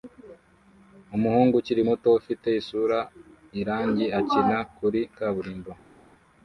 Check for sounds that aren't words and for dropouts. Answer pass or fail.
pass